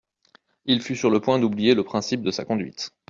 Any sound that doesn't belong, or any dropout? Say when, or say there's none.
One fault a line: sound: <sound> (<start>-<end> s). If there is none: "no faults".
no faults